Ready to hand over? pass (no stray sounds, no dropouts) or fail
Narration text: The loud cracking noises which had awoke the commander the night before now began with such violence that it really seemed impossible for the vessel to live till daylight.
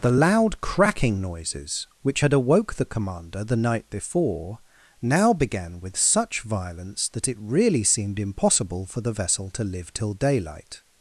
pass